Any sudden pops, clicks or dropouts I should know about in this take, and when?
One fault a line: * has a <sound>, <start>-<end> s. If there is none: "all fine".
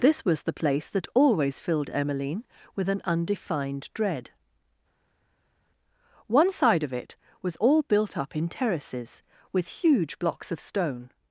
all fine